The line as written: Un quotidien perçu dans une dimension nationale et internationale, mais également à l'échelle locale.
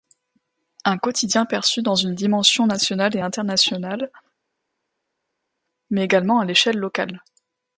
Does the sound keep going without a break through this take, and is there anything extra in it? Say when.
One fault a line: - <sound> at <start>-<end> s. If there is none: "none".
none